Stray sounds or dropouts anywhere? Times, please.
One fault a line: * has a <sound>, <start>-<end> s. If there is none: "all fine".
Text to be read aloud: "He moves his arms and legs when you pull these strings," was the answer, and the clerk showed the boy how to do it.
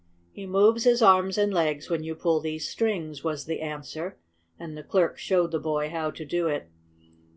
all fine